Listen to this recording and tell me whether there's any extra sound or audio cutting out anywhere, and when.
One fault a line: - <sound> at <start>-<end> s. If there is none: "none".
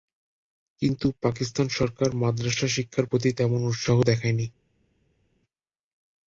none